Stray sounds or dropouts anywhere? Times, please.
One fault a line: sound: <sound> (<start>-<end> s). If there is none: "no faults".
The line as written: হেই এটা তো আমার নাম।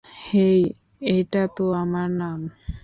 no faults